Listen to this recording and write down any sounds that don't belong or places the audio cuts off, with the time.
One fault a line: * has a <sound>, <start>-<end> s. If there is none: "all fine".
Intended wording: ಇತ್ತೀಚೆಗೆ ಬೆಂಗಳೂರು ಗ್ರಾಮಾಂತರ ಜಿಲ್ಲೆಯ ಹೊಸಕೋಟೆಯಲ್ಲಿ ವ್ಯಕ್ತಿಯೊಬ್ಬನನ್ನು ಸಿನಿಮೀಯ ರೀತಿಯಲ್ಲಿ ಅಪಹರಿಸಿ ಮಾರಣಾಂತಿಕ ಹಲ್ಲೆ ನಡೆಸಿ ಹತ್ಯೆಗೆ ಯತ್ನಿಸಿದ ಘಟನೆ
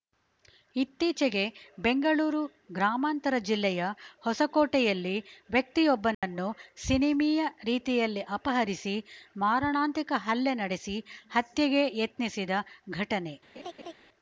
* has a dropout, 6.1-6.2 s
* has a laugh, 13.5-13.9 s